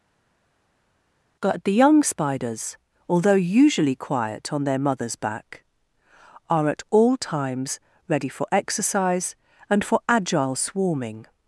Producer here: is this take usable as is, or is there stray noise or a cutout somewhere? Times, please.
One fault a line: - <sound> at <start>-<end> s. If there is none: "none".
none